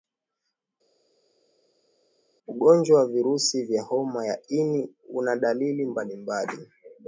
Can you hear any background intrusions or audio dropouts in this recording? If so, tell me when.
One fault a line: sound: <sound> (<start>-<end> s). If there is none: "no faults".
no faults